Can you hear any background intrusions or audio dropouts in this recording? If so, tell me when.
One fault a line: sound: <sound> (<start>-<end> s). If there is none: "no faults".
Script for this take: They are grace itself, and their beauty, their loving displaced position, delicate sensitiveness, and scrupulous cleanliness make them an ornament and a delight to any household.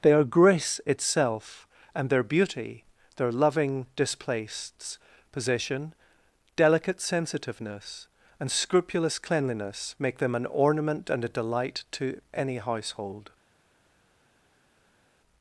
no faults